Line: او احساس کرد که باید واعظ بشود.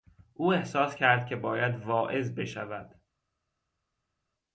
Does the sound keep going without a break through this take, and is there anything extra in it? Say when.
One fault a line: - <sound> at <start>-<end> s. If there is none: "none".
none